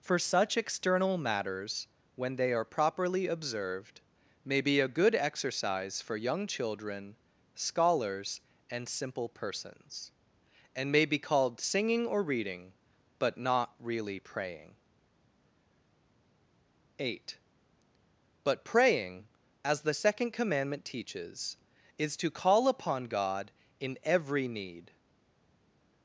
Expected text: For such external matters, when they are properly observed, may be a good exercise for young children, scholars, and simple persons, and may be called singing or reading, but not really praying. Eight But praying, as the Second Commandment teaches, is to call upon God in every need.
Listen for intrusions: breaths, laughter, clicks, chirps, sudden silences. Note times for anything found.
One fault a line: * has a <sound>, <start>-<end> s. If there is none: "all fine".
all fine